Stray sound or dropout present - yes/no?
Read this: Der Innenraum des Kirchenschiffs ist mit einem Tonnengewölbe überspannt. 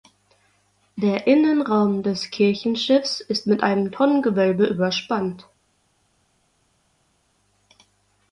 no